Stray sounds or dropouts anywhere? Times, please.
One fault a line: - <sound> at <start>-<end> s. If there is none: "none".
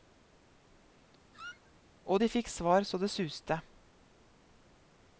- squeak at 1.3-1.7 s